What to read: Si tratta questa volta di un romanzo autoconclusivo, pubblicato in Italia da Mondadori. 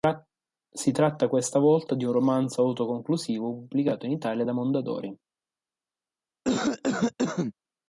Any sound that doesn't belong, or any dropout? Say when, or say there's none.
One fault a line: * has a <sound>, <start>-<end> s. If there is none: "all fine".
* has a cough, 6.4-7.5 s